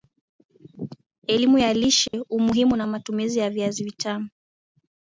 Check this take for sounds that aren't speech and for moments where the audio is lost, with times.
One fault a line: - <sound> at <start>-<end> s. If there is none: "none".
- dropout at 2.1-2.1 s